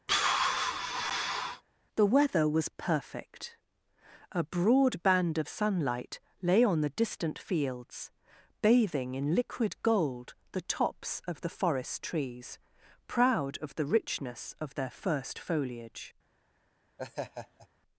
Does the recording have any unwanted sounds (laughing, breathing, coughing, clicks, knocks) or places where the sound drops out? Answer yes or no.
yes